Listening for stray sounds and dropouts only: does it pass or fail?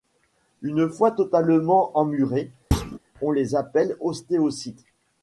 fail